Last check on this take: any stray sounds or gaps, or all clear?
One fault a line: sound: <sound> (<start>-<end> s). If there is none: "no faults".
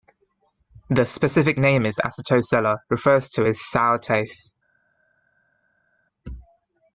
no faults